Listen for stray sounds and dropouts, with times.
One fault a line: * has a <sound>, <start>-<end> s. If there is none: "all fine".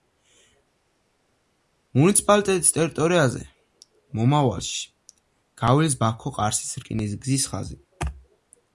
all fine